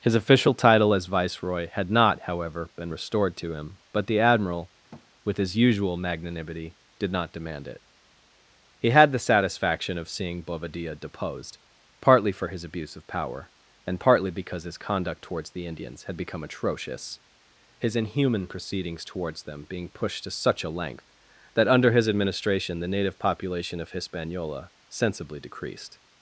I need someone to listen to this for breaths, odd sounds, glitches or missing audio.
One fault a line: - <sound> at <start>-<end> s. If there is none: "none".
- thud at 4.9-5.1 s